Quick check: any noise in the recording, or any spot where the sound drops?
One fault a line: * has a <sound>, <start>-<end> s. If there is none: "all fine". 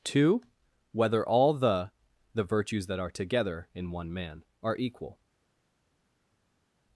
all fine